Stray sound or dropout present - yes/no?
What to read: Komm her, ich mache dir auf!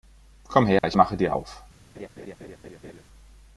yes